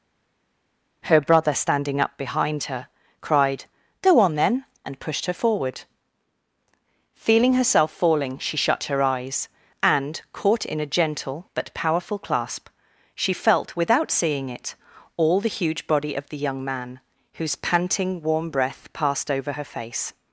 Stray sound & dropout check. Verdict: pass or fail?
pass